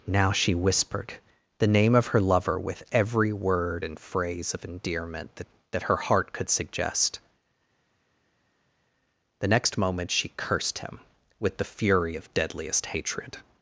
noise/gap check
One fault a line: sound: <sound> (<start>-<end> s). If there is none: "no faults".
no faults